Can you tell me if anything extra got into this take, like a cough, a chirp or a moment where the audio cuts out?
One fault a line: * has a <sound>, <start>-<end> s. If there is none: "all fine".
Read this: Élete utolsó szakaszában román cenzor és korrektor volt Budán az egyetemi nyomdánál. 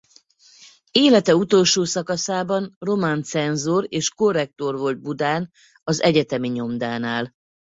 all fine